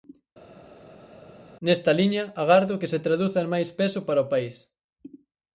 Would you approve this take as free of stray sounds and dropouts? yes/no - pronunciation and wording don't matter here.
yes